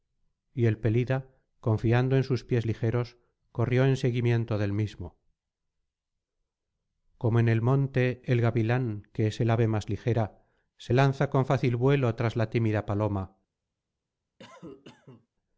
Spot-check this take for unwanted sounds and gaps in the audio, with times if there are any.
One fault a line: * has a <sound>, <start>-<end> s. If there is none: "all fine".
* has a cough, 14.4-15.3 s